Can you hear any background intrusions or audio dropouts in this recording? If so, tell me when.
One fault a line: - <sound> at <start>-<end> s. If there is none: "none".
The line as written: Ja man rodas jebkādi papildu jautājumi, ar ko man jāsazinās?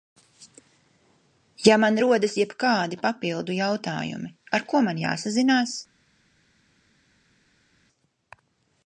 none